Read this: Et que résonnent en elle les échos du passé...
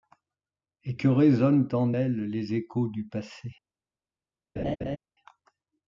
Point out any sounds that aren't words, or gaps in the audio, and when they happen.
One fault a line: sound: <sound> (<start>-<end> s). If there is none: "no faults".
sound: laugh (4.6-5.0 s)